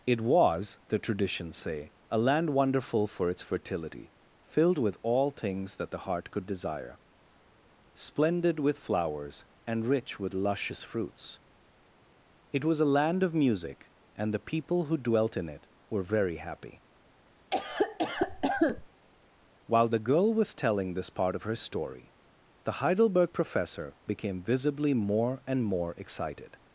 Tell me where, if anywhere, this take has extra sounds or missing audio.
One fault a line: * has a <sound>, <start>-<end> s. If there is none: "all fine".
* has a cough, 17.5-18.9 s